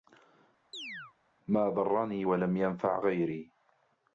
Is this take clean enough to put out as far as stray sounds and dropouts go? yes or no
no